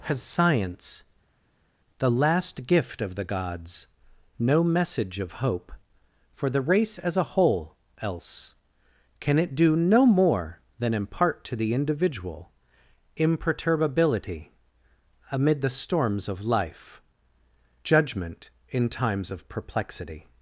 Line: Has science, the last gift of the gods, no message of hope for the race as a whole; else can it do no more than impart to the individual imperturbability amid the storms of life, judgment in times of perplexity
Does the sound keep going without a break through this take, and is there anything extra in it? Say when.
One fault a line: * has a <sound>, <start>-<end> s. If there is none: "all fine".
all fine